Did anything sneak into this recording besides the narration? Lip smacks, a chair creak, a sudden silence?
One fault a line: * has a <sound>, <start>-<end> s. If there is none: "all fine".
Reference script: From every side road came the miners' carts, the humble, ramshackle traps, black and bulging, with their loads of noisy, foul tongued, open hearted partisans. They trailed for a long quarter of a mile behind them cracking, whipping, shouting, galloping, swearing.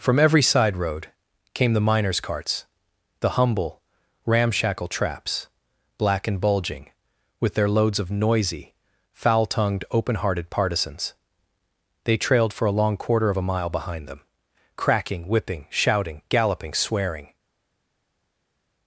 all fine